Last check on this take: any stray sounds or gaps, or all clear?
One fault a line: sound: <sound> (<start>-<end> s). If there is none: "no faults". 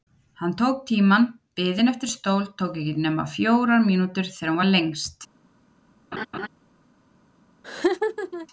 sound: laugh (6.1-6.5 s)
sound: laugh (7.6-8.5 s)